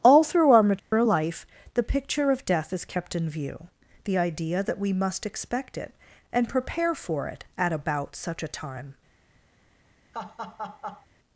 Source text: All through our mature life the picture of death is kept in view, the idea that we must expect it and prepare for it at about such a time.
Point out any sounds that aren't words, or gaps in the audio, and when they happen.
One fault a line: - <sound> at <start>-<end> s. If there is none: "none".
- dropout at 0.8-0.9 s
- laugh at 10.1-11.1 s